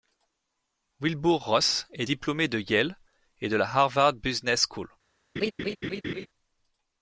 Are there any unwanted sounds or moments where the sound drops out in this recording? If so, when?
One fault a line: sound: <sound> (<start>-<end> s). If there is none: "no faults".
sound: laugh (5.4-6.3 s)